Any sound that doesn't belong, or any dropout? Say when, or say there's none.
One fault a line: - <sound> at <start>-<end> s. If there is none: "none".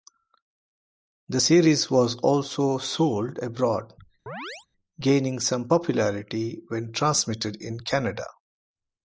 - chirp at 4.3-4.7 s